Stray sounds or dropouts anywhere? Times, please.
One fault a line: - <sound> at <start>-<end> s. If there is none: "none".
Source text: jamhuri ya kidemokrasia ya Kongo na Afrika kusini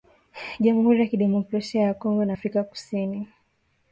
none